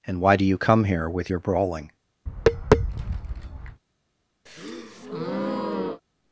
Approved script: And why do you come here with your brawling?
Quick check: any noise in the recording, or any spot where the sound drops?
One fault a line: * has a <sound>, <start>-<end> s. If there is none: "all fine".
* has a tap, 2.3-3.8 s
* has a breath, 4.5-6.0 s